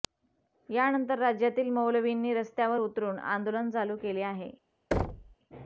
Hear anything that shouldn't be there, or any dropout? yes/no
yes